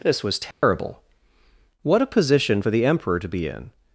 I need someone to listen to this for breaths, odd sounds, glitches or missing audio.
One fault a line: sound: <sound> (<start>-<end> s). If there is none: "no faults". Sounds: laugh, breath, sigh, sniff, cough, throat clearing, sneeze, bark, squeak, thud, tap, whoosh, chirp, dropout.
sound: dropout (0.5-0.6 s)